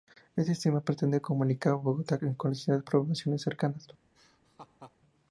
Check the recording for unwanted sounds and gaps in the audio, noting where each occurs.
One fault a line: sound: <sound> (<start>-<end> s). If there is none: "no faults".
sound: laugh (4.1-5.0 s)